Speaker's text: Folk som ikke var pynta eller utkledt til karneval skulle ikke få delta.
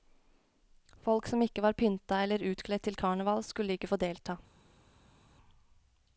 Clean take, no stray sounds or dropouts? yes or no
yes